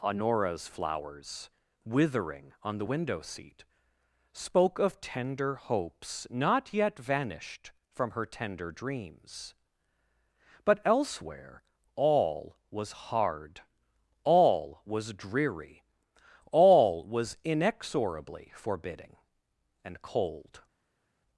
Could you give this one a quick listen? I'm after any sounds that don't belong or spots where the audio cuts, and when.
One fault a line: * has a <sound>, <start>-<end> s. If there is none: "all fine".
all fine